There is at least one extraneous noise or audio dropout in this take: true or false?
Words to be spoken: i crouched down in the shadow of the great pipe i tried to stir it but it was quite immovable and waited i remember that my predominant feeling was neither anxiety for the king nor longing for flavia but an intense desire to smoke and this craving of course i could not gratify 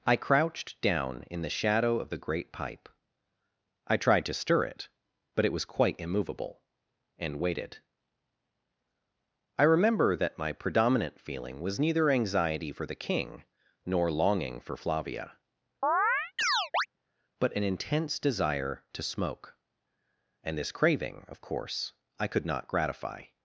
true